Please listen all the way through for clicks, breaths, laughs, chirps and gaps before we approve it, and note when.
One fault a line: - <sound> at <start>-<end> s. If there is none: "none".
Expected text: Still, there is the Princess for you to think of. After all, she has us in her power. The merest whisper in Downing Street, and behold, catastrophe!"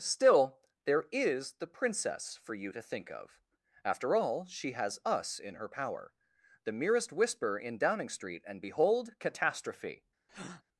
- breath at 10.3-10.6 s